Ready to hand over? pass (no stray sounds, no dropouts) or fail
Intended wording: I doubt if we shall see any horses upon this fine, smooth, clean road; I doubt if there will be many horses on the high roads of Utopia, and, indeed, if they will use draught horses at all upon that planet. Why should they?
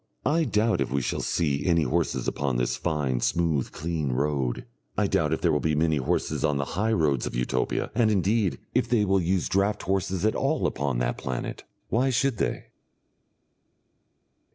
pass